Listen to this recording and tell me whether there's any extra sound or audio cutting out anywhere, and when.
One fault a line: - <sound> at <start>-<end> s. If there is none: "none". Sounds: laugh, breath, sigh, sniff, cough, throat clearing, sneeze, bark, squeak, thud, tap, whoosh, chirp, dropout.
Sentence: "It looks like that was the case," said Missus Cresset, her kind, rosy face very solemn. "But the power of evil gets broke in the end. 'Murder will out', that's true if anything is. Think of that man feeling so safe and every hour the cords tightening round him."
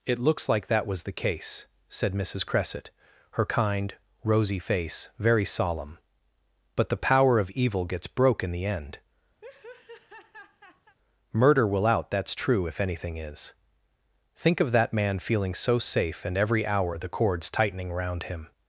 - laugh at 9.4-11.0 s